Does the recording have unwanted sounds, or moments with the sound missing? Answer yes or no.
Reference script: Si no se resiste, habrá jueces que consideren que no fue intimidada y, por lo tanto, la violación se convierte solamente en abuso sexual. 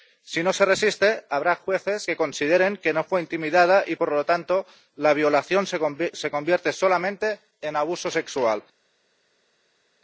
no